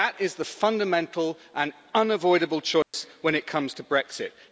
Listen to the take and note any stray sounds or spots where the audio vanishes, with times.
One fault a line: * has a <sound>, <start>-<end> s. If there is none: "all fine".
* has a dropout, 2.8-2.9 s